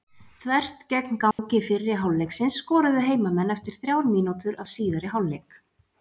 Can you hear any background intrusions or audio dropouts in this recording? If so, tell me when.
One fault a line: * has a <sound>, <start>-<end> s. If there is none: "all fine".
* has a dropout, 1.3-1.4 s